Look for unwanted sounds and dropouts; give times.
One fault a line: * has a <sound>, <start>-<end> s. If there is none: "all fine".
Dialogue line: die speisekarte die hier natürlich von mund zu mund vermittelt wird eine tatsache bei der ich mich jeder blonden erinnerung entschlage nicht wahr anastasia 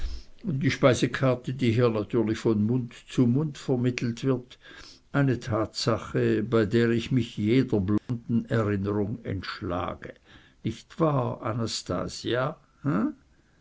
* has a dropout, 8.0-8.1 s